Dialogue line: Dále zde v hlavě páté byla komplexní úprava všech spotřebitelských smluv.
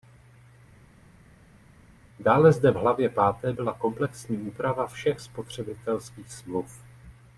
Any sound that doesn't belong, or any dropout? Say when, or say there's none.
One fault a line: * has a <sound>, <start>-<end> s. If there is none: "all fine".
all fine